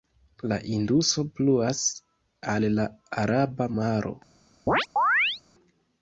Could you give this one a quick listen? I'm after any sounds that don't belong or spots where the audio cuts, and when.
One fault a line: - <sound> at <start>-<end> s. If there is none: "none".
- chirp at 4.7-5.4 s